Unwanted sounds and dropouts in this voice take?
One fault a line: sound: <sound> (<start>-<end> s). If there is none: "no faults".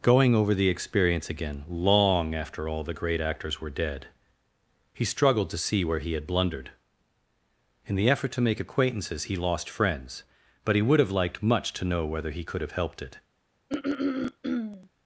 sound: throat clearing (13.7-14.9 s)